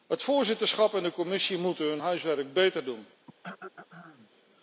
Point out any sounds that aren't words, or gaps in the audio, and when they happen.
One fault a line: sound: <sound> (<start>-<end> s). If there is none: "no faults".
sound: throat clearing (3.3-4.3 s)